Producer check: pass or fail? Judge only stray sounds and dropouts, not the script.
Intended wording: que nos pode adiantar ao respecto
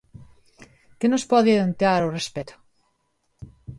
pass